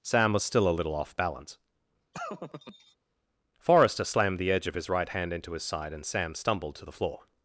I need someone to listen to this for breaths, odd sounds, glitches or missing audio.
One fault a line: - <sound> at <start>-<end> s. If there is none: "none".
- laugh at 2.1-3.0 s